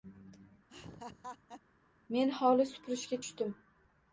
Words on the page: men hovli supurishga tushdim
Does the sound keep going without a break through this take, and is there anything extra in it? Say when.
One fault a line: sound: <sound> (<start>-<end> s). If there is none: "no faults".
sound: laugh (0.7-1.6 s)